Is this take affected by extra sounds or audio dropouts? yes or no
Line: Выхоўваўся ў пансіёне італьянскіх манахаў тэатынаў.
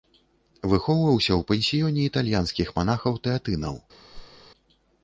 yes